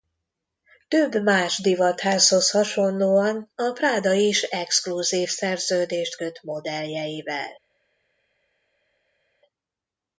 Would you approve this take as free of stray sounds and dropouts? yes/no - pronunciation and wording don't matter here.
yes